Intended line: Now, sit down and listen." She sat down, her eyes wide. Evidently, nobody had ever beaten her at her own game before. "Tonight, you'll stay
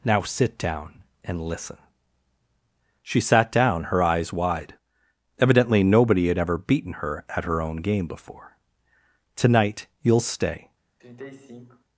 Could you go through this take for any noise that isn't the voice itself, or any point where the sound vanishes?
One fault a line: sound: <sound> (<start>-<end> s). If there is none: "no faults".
sound: sigh (11.0-11.8 s)